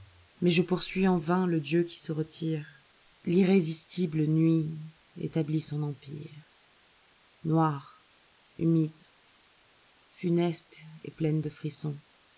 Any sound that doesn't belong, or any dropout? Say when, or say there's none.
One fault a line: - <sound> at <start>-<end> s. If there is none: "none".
none